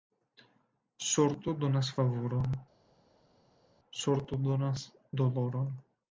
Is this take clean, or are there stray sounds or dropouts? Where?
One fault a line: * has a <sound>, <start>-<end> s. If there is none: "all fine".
all fine